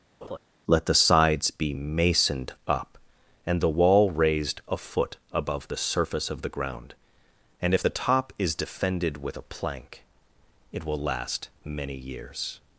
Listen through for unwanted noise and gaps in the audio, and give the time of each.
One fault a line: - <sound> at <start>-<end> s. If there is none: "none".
- laugh at 0.2-0.4 s